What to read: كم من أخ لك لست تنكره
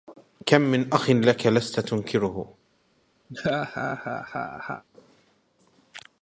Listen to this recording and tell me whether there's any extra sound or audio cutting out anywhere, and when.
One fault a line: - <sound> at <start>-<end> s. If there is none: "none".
- laugh at 3.3-4.8 s